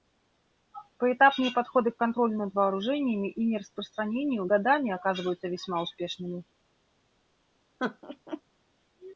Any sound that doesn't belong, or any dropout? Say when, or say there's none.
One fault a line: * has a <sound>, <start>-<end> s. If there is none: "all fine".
* has a laugh, 7.8-8.4 s